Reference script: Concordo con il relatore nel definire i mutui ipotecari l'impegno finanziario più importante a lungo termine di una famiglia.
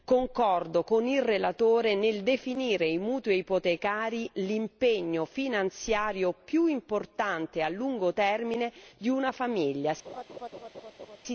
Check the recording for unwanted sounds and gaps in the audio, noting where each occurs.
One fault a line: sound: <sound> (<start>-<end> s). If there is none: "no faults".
sound: laugh (10.0-11.2 s)